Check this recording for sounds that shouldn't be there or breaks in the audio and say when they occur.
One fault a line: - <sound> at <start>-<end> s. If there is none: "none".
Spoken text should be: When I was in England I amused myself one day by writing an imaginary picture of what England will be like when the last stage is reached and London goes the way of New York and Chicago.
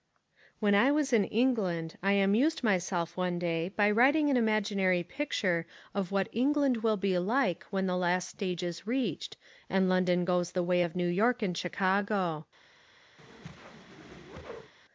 - whoosh at 13.2-14.7 s